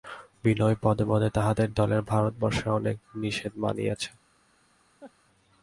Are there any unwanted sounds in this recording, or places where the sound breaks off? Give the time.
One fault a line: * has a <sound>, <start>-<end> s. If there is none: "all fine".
* has a laugh, 5.0-5.1 s